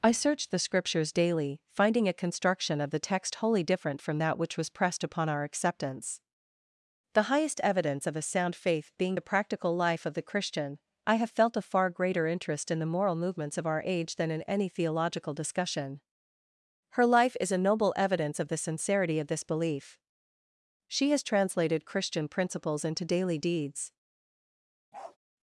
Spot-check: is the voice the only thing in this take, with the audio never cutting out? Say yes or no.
no